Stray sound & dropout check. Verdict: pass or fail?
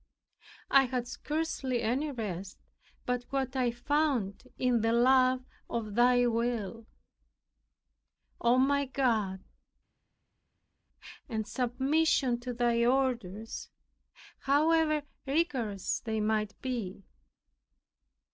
pass